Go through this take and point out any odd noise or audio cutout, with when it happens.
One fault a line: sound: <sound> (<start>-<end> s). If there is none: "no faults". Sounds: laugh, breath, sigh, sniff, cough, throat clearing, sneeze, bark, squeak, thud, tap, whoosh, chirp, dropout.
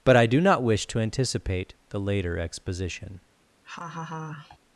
sound: laugh (3.6-4.6 s)